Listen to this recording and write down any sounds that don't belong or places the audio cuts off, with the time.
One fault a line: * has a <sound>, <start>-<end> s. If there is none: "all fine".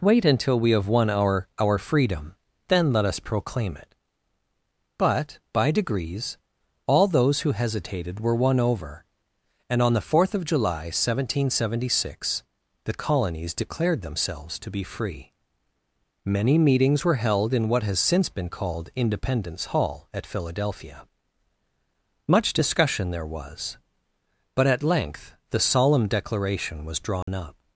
* has a dropout, 27.2-27.3 s